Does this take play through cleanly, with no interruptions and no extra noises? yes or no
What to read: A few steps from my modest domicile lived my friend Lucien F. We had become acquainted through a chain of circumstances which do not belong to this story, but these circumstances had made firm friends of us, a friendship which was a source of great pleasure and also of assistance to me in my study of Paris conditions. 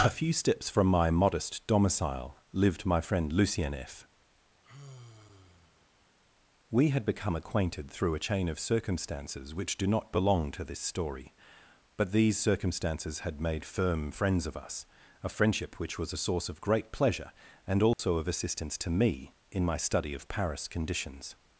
no